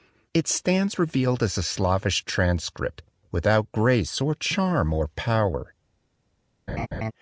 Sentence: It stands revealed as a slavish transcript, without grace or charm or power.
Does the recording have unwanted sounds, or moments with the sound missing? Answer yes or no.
yes